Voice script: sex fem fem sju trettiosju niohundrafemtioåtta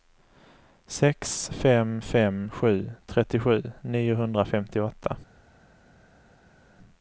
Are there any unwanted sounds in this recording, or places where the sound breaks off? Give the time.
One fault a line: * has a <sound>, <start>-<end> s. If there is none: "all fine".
all fine